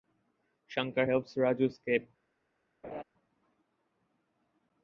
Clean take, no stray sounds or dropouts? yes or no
no